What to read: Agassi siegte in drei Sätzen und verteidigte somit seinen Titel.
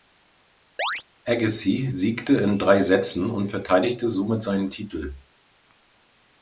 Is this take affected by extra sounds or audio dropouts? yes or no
yes